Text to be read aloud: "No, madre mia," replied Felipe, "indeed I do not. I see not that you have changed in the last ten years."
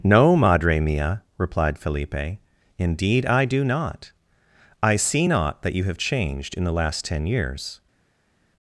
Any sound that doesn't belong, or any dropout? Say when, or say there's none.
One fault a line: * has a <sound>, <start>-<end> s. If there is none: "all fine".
all fine